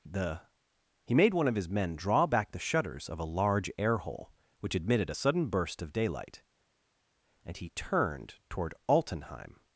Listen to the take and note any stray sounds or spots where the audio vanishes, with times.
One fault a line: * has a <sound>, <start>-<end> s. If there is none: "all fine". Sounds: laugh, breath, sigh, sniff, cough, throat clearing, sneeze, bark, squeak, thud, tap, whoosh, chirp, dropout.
all fine